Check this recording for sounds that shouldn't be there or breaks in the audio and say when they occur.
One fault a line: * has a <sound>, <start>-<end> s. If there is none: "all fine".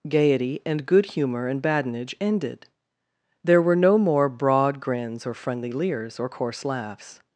all fine